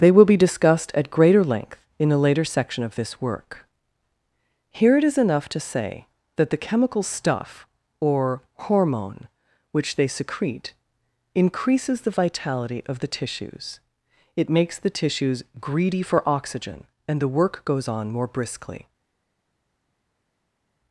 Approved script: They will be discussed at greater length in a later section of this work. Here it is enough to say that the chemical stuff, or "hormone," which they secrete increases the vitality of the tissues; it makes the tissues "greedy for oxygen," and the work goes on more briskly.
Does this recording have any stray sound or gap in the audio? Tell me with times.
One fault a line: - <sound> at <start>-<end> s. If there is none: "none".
none